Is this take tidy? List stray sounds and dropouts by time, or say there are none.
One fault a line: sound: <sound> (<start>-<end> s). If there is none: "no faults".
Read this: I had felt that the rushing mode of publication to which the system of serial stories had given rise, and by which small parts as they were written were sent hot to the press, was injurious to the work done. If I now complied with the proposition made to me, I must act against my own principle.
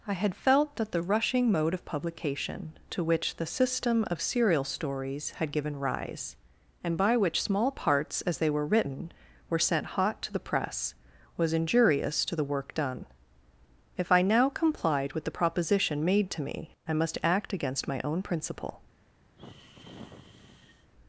sound: sigh (19.4-20.9 s)